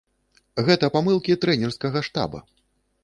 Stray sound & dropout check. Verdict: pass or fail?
pass